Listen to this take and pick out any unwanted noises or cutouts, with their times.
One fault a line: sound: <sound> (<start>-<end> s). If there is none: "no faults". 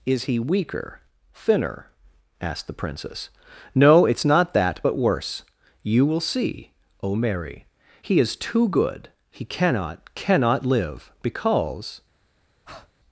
sound: breath (12.7-12.9 s)